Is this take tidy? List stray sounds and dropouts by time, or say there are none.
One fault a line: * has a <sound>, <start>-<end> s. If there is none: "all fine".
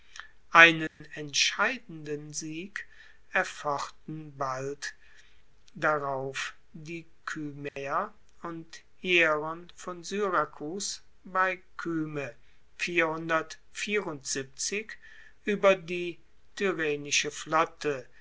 * has a dropout, 0.9-1.0 s
* has a dropout, 7.7-7.8 s